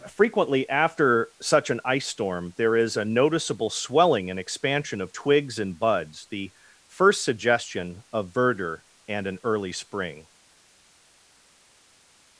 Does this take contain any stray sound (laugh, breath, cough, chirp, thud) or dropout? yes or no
no